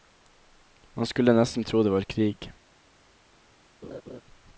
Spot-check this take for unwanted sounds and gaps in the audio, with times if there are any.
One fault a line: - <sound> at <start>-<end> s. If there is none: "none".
- laugh at 3.8-4.2 s